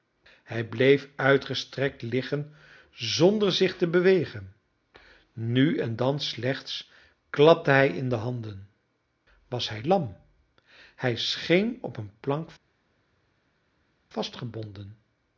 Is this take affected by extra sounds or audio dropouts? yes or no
no